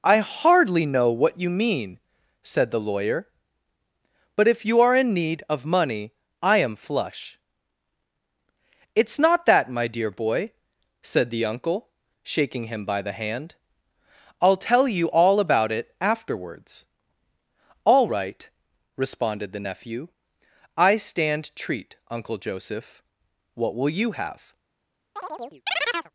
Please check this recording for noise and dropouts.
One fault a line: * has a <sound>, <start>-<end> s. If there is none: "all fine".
* has a chirp, 25.2-26.1 s